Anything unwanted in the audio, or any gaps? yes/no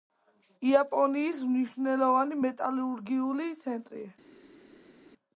no